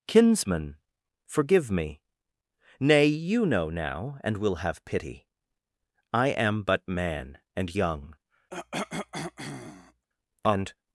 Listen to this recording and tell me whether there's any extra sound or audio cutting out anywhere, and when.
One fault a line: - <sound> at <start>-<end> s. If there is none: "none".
- cough at 8.5-10.1 s